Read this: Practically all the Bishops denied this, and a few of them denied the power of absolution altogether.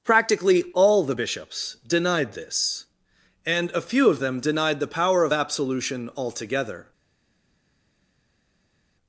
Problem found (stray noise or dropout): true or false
false